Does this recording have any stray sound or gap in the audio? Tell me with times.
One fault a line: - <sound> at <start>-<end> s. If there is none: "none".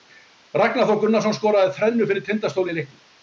none